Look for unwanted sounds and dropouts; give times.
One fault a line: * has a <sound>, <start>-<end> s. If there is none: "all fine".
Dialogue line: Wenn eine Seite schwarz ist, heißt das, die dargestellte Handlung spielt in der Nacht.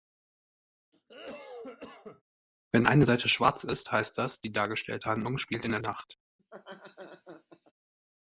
* has a cough, 0.9-2.2 s
* has a laugh, 6.4-7.7 s